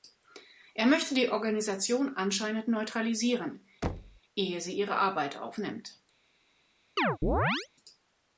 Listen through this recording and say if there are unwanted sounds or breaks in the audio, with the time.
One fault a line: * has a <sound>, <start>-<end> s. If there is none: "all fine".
* has a thud, 3.8-4.2 s
* has a chirp, 7.0-7.7 s